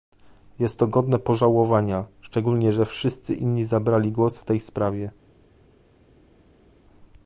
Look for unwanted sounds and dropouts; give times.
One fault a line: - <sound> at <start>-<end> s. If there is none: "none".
none